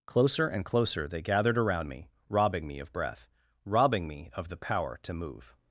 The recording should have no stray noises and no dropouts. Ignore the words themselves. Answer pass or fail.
pass